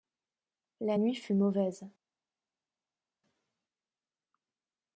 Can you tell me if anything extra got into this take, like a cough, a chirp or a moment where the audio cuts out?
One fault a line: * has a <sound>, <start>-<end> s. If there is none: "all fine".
all fine